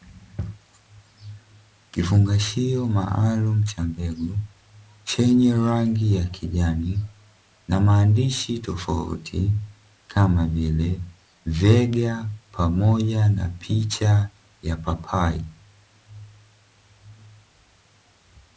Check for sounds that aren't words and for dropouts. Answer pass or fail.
pass